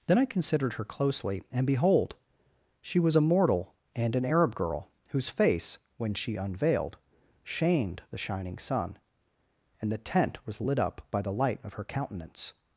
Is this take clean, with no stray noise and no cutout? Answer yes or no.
yes